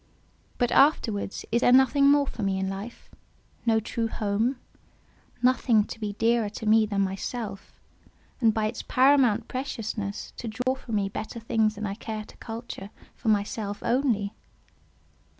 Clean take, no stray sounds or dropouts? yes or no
no